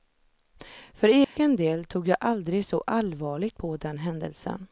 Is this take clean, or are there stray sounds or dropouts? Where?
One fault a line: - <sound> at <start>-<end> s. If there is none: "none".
- dropout at 1.2-1.4 s